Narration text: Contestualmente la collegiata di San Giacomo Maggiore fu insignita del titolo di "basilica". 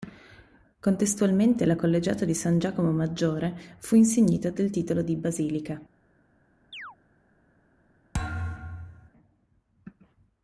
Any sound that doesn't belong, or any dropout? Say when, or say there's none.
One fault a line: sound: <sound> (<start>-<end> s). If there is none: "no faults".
sound: chirp (6.7-7.0 s)
sound: thud (8.1-9.1 s)